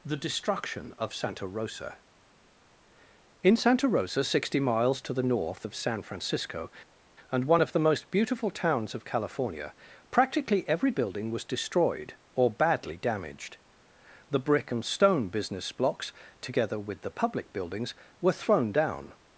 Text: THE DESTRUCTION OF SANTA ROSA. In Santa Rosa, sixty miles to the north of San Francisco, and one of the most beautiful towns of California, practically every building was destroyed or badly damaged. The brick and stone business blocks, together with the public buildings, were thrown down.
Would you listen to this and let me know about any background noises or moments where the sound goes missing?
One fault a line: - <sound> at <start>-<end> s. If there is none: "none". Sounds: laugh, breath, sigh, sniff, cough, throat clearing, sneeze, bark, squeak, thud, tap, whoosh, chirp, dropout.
none